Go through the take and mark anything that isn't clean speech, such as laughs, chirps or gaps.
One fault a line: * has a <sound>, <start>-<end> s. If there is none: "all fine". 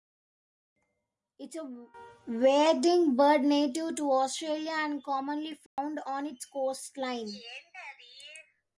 * has a dropout, 5.7-5.8 s